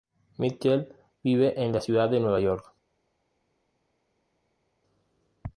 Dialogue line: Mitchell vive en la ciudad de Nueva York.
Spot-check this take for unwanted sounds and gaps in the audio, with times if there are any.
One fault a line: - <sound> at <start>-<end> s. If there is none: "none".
none